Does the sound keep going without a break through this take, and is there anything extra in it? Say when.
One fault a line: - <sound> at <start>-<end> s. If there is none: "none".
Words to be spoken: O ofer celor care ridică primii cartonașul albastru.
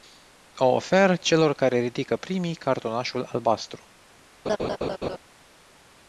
- laugh at 4.5-5.2 s